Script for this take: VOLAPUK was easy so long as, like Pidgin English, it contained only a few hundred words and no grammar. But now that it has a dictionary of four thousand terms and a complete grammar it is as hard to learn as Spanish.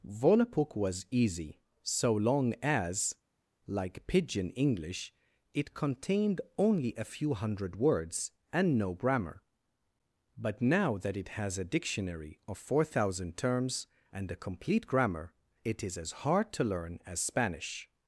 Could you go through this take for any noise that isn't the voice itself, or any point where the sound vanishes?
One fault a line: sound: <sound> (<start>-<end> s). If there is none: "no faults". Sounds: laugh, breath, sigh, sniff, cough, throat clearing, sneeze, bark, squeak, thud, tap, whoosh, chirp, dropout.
no faults